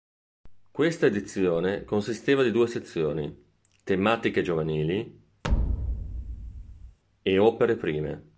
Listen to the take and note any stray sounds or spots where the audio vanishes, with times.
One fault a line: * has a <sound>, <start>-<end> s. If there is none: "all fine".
* has a thud, 5.4-7.0 s